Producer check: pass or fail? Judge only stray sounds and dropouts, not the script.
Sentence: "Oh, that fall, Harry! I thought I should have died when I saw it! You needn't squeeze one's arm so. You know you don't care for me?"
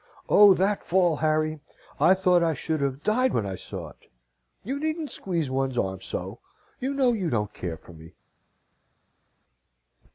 pass